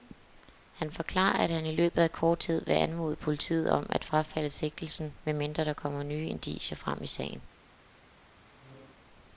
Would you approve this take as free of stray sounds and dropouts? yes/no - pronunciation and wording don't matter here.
no